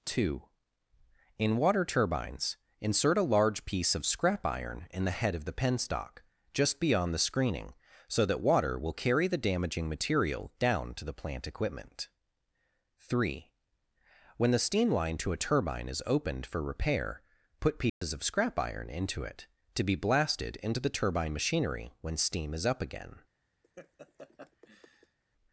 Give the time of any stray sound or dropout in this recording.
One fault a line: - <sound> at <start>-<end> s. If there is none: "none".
- dropout at 17.9-18.0 s
- laugh at 23.6-25.2 s